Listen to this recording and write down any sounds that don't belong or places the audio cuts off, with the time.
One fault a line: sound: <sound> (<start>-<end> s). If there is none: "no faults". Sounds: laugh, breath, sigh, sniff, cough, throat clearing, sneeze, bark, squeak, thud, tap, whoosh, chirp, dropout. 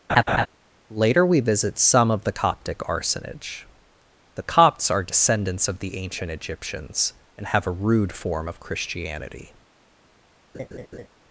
sound: laugh (0.1-0.5 s)
sound: laugh (10.5-11.1 s)